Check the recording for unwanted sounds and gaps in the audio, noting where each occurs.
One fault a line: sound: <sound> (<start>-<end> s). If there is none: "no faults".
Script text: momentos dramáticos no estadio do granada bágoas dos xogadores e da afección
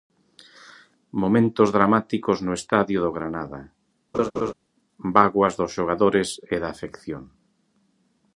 sound: laugh (4.1-4.5 s)